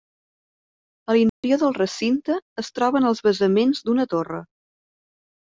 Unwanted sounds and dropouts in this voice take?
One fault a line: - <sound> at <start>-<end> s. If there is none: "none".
- dropout at 1.3-1.4 s